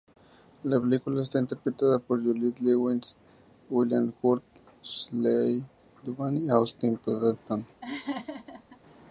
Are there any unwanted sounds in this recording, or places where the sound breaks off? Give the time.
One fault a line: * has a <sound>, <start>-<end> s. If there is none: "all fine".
* has a laugh, 7.8-8.8 s